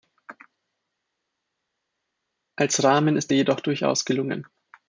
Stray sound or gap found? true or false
false